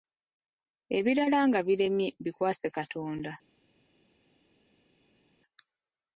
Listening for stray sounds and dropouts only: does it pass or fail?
pass